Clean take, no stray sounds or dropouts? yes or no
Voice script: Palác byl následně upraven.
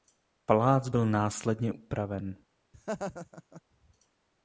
no